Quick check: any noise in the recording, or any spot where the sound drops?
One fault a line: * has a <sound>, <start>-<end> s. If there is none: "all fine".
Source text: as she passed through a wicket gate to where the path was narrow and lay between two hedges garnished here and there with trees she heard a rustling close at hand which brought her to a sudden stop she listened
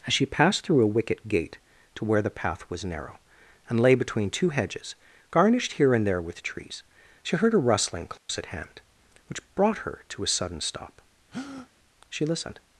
* has a dropout, 8.2-8.3 s
* has a breath, 11.3-11.7 s